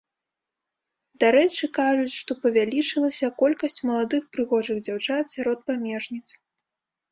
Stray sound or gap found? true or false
false